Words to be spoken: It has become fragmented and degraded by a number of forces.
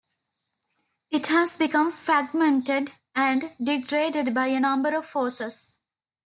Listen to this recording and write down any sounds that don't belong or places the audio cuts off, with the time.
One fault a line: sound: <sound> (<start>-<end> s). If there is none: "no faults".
no faults